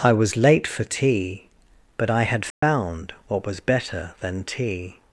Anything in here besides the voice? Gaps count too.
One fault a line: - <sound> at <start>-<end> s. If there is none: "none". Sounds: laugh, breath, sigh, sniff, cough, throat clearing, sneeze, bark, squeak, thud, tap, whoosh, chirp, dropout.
- dropout at 2.5-2.6 s